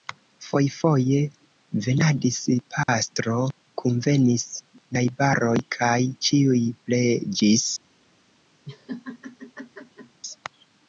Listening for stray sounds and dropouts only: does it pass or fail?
fail